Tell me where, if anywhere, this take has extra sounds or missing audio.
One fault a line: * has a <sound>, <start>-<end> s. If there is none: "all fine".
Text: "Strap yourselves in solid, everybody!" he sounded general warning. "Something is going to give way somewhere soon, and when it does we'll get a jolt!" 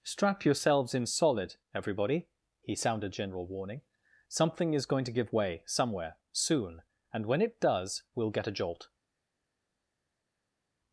all fine